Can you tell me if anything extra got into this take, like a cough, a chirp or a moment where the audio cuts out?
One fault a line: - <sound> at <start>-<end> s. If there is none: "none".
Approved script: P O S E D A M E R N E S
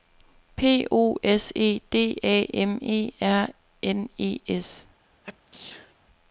- sneeze at 5.2-6.0 s